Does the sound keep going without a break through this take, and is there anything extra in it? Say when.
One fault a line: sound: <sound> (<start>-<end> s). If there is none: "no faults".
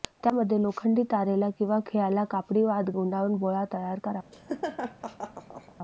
sound: laugh (4.3-5.8 s)